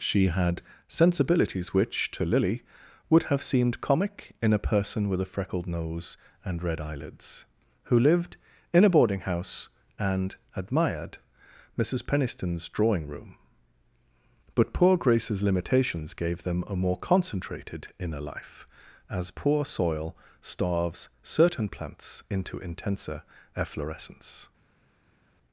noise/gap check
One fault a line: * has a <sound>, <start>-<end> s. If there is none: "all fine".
all fine